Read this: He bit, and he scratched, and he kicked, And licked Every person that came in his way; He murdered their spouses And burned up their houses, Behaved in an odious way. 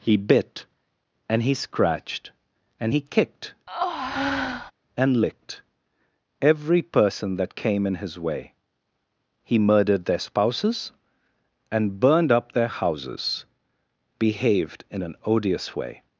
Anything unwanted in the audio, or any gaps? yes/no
yes